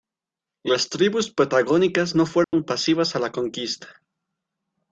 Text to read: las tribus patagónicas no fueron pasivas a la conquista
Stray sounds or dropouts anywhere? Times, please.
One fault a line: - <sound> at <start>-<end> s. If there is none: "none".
- dropout at 2.4-2.5 s